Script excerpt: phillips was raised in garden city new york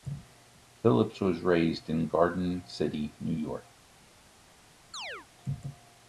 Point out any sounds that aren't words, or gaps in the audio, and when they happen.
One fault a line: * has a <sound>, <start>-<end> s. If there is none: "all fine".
* has a chirp, 4.9-5.3 s